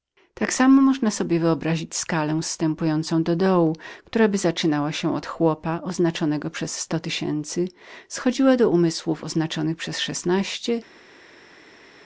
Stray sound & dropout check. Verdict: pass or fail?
pass